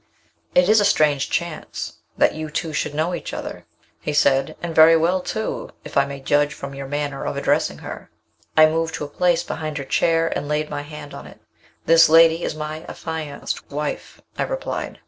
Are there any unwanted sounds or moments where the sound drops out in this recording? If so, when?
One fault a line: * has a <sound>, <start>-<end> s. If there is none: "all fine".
all fine